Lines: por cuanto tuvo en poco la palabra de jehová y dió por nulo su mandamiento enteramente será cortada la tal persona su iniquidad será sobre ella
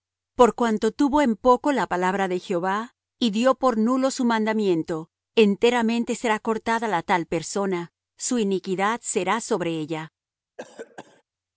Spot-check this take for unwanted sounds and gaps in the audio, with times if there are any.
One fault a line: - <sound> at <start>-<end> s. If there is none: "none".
- cough at 10.6-11.2 s